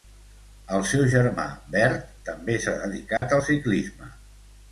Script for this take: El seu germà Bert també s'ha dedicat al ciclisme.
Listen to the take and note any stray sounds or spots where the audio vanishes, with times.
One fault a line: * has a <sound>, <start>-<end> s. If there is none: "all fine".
* has a dropout, 3.2-3.2 s